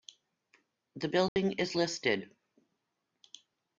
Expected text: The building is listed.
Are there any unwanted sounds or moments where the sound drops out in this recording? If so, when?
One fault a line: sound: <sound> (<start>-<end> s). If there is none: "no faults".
sound: dropout (1.3-1.4 s)